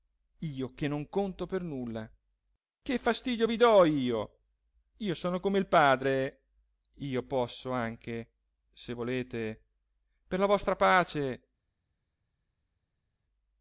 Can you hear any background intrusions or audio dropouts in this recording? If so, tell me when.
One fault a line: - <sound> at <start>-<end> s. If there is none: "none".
none